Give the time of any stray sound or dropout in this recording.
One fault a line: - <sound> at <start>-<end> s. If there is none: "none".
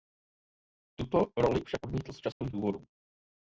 - dropout at 2.3-2.4 s